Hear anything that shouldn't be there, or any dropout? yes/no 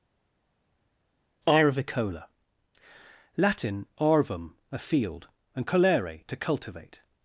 no